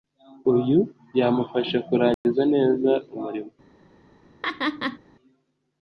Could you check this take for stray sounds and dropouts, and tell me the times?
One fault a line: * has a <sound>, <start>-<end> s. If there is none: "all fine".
* has a dropout, 2.1-2.2 s
* has a laugh, 4.4-5.0 s